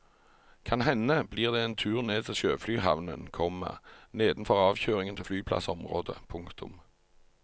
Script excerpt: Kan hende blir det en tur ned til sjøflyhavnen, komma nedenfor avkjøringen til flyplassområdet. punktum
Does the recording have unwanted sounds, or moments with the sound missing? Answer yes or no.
no